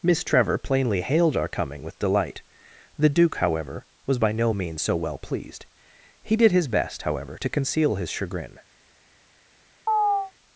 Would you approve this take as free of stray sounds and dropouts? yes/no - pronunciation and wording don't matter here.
no